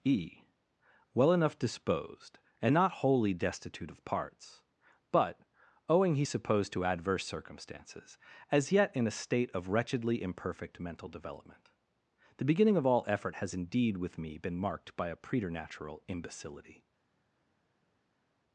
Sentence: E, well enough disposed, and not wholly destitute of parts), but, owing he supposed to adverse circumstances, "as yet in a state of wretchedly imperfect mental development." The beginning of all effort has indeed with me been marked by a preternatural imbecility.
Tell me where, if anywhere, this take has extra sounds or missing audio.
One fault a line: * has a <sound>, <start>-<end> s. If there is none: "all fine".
all fine